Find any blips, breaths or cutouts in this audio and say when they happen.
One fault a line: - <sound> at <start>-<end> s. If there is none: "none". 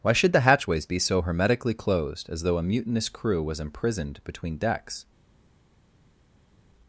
none